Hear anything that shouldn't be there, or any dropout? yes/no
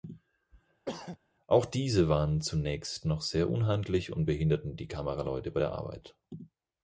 yes